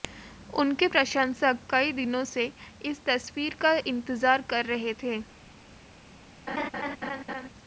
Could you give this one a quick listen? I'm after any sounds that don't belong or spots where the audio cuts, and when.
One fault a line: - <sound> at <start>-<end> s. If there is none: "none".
- laugh at 6.5-7.5 s